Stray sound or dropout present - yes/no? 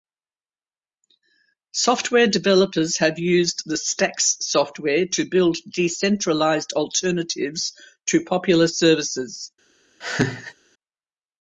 yes